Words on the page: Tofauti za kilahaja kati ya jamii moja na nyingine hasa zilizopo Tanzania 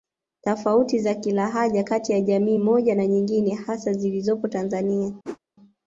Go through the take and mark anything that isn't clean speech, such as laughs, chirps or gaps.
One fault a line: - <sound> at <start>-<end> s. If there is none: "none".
- whoosh at 5.2-5.4 s